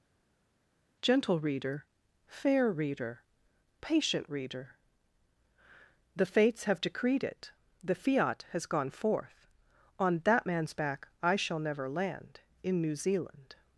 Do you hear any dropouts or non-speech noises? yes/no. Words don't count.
no